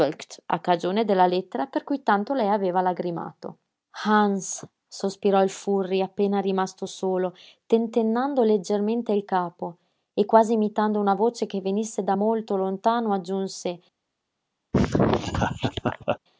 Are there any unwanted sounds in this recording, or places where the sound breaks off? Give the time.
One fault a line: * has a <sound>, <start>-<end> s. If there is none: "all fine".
* has a laugh, 14.7-16.2 s